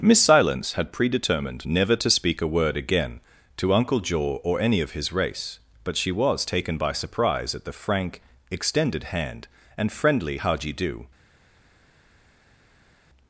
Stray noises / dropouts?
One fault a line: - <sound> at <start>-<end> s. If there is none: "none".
none